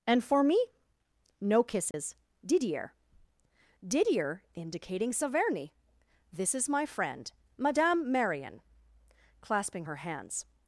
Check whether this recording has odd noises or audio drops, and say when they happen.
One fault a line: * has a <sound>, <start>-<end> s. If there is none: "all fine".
* has a dropout, 1.9-1.9 s